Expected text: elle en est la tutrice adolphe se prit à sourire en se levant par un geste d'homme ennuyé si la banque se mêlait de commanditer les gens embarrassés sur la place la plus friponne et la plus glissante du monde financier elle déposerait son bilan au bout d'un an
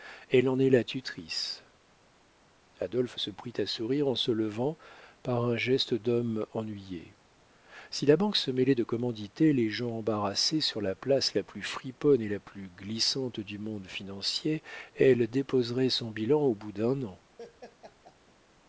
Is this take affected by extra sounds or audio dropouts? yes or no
yes